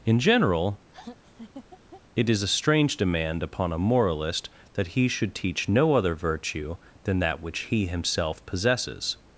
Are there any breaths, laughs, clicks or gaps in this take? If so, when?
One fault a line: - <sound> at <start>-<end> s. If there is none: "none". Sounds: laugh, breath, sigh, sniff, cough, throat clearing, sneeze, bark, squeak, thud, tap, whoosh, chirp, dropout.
- laugh at 0.9-2.0 s